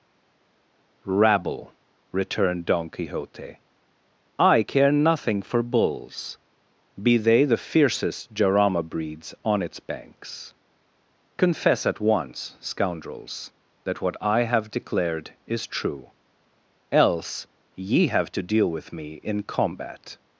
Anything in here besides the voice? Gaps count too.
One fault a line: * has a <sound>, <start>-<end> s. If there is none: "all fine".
all fine